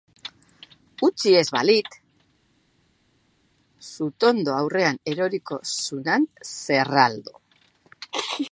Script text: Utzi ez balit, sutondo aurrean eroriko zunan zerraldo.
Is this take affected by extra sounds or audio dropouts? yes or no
no